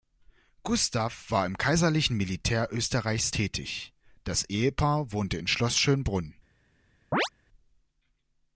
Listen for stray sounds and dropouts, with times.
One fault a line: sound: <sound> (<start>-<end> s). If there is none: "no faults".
sound: chirp (7.1-7.3 s)